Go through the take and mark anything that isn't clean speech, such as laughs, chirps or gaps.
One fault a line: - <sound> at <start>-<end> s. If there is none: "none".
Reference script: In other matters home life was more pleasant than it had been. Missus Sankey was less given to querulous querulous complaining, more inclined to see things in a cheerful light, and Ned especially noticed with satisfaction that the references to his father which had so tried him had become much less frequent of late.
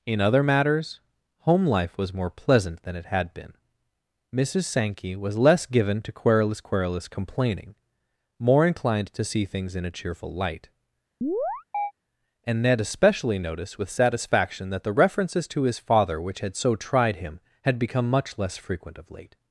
- chirp at 11.2-11.9 s